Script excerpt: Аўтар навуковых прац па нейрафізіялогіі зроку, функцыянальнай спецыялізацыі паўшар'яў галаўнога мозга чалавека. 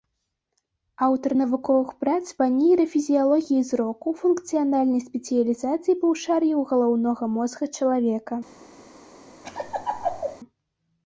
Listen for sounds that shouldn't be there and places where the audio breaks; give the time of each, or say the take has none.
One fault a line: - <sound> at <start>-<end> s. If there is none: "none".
- laugh at 9.4-10.4 s